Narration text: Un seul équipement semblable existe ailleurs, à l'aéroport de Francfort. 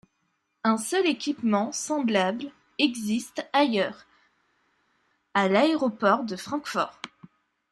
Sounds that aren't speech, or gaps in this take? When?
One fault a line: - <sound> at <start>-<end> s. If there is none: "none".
none